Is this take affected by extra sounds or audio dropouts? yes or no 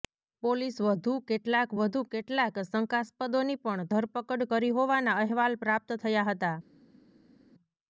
no